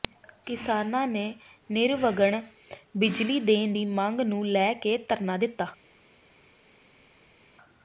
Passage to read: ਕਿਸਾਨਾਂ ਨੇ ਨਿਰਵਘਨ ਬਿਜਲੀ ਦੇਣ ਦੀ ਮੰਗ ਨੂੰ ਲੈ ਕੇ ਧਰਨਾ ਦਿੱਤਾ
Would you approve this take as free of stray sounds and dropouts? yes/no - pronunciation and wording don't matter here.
yes